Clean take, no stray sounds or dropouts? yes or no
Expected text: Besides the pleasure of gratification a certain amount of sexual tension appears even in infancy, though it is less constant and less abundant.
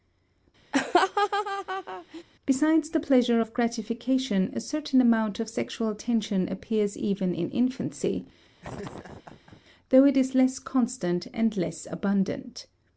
no